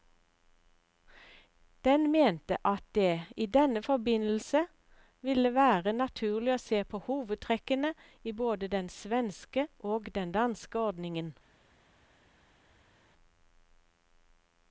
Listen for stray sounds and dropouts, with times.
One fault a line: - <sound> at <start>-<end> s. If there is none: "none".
none